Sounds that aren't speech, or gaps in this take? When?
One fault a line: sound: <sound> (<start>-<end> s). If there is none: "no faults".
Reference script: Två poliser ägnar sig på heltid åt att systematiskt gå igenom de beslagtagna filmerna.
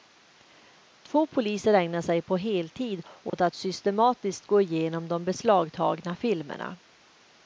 sound: dropout (3.3-3.3 s)